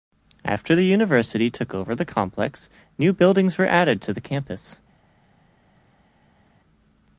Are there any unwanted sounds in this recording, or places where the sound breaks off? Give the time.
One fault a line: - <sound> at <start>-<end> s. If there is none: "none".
none